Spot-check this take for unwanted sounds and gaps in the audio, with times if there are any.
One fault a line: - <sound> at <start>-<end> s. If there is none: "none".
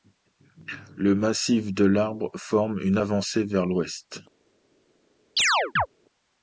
- chirp at 5.4-5.9 s